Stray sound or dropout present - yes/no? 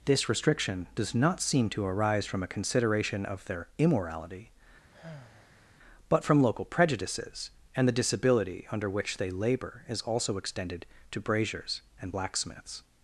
yes